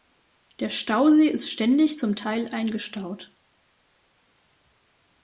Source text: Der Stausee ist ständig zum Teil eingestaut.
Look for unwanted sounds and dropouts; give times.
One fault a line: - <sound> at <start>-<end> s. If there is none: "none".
none